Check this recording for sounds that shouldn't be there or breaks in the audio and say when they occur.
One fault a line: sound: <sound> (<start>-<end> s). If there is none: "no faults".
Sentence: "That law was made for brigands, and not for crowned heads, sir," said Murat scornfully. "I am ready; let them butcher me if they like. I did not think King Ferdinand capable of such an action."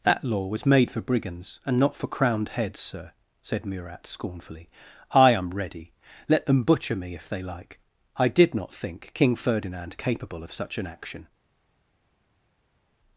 no faults